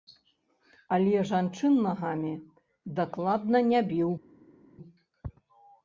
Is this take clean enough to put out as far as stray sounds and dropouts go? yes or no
yes